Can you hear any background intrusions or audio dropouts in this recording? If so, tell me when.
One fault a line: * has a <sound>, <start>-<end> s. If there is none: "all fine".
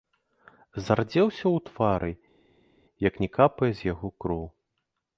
all fine